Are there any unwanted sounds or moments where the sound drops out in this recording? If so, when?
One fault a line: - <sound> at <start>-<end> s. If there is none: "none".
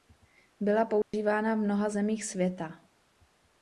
- dropout at 1.0-1.1 s